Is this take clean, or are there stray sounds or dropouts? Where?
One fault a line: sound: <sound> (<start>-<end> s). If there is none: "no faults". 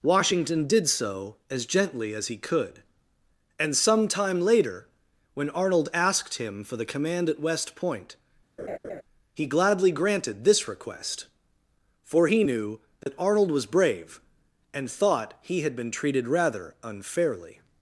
sound: laugh (8.6-9.0 s)
sound: dropout (13.0-13.1 s)